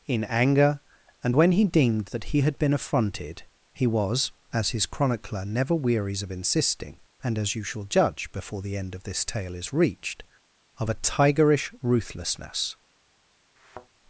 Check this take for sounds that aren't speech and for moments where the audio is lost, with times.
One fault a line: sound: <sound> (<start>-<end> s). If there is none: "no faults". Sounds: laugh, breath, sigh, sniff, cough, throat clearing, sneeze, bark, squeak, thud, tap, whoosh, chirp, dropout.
sound: thud (13.6-13.9 s)